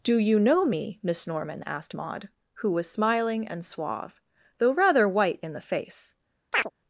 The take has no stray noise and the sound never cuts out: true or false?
false